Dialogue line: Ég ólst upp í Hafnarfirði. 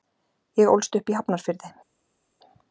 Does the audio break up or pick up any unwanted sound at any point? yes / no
no